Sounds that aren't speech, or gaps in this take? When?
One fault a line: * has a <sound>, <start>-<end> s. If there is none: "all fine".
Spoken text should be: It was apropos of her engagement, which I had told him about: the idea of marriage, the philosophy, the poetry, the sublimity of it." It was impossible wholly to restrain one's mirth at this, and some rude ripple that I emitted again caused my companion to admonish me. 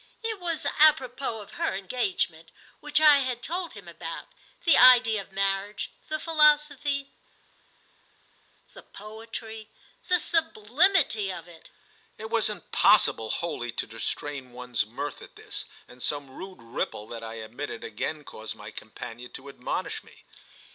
all fine